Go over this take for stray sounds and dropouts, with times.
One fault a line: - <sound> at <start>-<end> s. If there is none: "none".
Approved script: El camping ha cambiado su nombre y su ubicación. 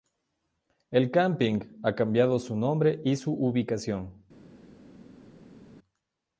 none